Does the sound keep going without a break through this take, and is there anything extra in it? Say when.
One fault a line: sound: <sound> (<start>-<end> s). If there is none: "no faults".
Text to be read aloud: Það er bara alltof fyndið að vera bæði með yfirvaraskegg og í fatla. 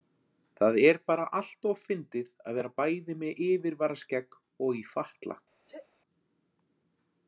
sound: sneeze (5.7-5.9 s)